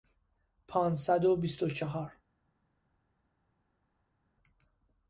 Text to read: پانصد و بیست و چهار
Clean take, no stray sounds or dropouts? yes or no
yes